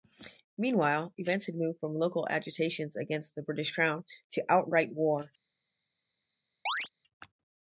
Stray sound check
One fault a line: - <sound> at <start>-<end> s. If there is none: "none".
- chirp at 6.7-6.9 s